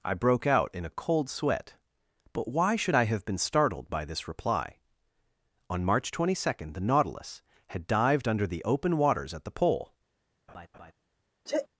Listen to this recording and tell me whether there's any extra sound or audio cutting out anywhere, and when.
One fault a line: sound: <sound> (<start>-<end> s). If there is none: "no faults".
sound: laugh (10.5-10.9 s)
sound: sneeze (11.5-11.7 s)